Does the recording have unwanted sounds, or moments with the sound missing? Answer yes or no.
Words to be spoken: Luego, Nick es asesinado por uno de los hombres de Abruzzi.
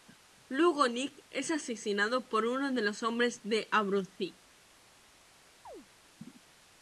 yes